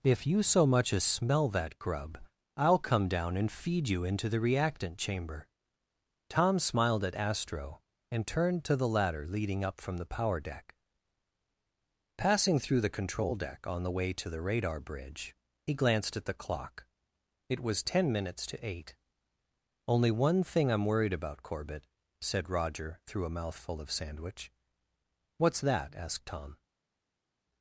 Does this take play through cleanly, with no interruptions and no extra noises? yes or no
yes